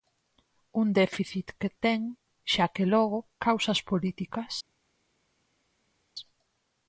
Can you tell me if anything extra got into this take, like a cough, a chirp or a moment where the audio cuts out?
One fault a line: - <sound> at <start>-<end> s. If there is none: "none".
none